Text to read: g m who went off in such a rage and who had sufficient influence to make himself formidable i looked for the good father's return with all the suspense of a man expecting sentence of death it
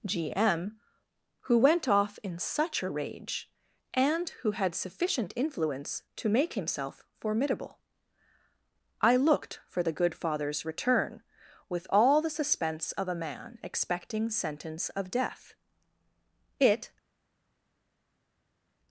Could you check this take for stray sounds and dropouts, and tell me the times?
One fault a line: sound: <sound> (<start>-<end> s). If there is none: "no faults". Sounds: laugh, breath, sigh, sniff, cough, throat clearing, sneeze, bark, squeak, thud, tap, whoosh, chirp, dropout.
no faults